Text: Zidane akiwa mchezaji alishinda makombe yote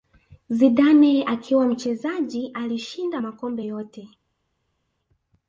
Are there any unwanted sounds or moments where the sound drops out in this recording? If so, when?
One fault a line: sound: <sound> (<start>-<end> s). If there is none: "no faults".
no faults